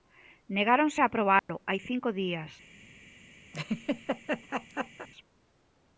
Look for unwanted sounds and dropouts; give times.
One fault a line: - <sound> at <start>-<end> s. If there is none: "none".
- dropout at 1.4-1.5 s
- laugh at 3.5-5.1 s